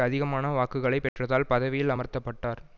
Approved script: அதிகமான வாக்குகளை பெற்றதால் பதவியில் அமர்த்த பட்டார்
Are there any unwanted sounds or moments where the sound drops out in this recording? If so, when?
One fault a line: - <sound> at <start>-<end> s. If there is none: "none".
- dropout at 1.1-1.2 s